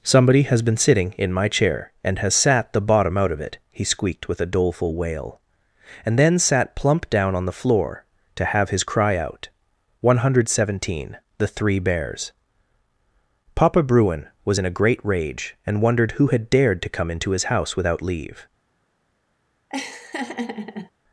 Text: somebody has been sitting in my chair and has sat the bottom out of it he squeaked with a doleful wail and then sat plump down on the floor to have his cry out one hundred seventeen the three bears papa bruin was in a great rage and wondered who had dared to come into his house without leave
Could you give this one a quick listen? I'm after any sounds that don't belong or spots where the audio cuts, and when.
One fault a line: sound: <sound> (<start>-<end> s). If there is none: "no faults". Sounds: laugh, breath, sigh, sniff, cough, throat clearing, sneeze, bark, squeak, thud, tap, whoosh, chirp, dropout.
sound: laugh (19.7-20.9 s)